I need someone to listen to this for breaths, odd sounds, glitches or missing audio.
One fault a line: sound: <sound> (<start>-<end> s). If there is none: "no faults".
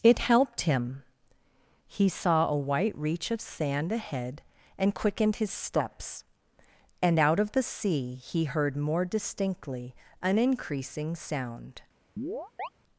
sound: chirp (12.2-12.7 s)